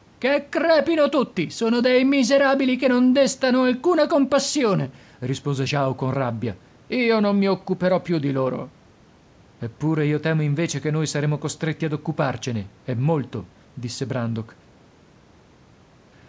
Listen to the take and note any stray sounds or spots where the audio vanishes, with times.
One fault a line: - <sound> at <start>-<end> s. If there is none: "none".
none